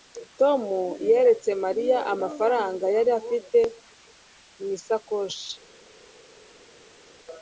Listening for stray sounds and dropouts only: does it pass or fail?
pass